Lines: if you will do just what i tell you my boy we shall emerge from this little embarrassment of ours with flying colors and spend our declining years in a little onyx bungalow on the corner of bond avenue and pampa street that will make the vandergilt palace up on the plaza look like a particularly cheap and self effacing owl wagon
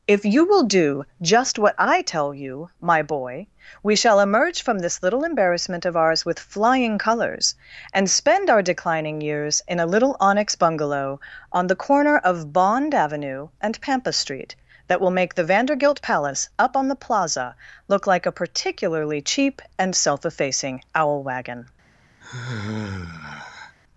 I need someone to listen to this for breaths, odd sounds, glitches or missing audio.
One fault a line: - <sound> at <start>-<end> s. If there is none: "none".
- sigh at 22.2-23.8 s